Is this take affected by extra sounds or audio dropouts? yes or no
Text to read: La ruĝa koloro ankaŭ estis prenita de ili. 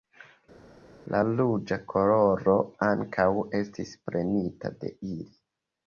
no